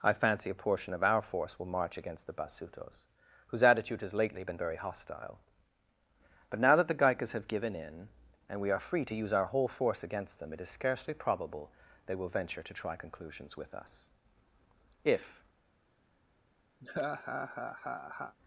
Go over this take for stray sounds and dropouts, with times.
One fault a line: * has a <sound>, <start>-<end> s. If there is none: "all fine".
* has a laugh, 16.8-18.4 s